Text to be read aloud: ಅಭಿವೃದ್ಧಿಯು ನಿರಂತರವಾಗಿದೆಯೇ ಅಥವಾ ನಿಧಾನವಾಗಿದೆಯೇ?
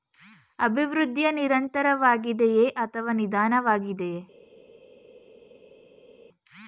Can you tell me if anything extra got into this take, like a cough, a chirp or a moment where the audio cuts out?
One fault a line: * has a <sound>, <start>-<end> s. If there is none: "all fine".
all fine